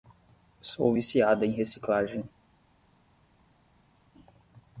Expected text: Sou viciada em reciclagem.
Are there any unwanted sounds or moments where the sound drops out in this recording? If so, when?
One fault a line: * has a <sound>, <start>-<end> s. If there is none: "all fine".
all fine